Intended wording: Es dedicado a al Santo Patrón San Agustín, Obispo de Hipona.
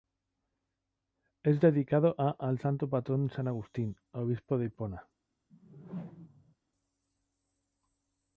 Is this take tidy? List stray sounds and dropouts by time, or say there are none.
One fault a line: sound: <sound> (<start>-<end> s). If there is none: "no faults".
sound: whoosh (5.5-6.6 s)